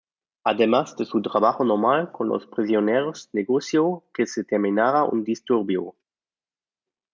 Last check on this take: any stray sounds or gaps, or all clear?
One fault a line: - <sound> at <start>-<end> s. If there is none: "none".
none